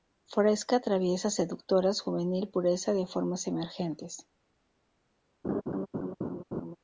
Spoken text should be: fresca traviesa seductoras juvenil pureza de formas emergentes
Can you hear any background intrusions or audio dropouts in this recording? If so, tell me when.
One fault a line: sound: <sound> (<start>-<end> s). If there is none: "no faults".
sound: laugh (5.4-6.8 s)